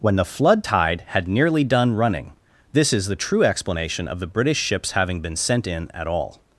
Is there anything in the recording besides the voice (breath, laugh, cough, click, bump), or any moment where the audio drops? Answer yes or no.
no